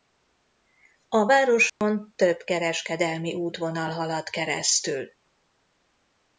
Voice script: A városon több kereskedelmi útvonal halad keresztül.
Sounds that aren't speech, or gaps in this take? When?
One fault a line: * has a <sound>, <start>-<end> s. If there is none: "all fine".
* has a dropout, 1.7-1.8 s